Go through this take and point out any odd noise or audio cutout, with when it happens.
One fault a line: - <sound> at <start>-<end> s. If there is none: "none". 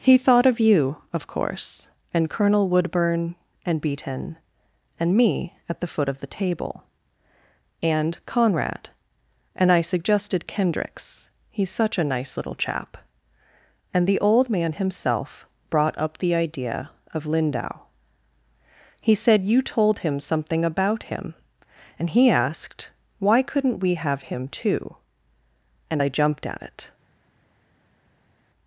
none